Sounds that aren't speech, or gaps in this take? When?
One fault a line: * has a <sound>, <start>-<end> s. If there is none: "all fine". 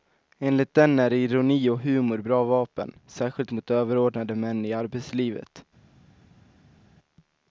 all fine